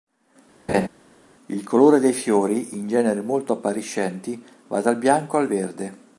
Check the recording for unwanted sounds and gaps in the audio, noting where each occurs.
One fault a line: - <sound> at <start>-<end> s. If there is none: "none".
- laugh at 0.7-0.9 s